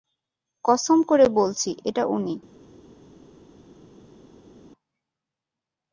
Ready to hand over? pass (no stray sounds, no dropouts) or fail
pass